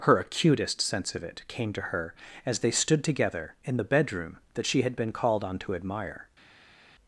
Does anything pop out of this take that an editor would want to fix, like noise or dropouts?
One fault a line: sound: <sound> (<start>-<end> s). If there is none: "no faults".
no faults